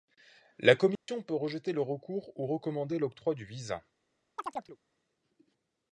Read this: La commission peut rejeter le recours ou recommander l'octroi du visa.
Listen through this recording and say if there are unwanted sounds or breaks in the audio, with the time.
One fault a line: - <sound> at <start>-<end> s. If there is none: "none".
- dropout at 1.0-1.1 s
- chirp at 4.4-4.8 s